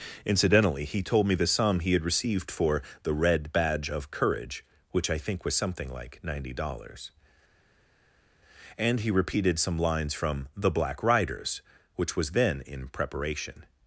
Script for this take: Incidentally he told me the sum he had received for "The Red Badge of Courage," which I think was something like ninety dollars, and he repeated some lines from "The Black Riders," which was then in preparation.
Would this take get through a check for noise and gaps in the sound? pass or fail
pass